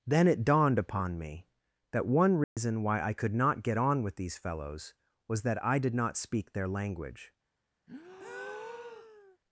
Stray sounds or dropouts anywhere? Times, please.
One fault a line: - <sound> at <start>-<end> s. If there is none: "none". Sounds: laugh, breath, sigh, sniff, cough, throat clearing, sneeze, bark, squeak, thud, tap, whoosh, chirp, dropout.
- dropout at 2.4-2.6 s
- breath at 7.9-9.4 s